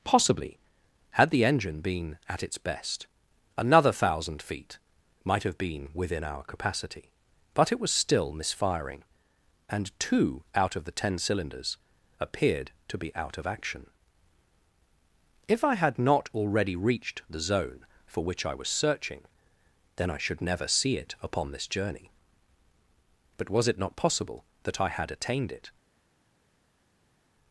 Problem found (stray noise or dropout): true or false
false